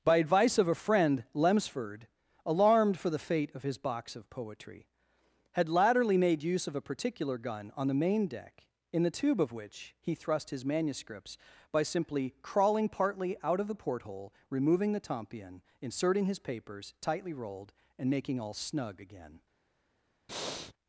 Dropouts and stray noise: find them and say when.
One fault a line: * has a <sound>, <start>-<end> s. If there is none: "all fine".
* has a breath, 20.3-20.7 s